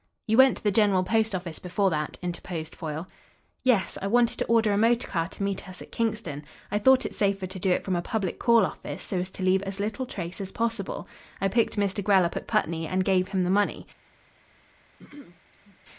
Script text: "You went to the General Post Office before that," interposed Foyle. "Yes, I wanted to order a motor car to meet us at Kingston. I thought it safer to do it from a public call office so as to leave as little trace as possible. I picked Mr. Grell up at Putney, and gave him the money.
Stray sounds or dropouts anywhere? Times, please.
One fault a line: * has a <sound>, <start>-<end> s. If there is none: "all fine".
* has a throat clearing, 15.0-15.8 s